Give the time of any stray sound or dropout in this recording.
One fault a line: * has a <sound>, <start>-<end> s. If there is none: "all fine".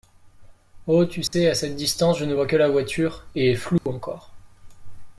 * has a dropout, 1.3-1.3 s
* has a dropout, 3.8-3.9 s